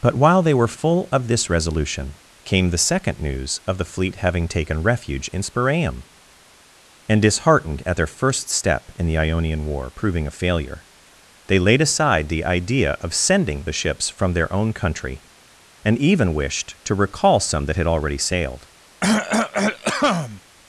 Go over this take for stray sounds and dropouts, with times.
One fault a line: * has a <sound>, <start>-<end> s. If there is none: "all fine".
* has a cough, 19.0-20.4 s